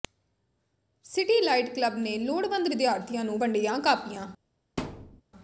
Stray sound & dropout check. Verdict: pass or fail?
fail